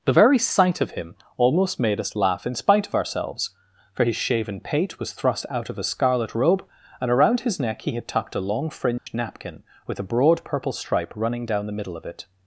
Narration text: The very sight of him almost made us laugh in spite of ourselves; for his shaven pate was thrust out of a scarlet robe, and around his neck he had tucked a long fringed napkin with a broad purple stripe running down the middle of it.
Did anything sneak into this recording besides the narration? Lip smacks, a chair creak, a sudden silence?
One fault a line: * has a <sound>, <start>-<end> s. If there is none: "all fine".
* has a dropout, 9.0-9.1 s